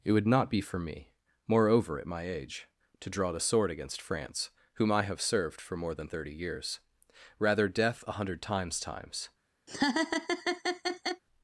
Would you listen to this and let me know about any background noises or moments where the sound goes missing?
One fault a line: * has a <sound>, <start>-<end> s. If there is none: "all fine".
* has a laugh, 9.7-11.2 s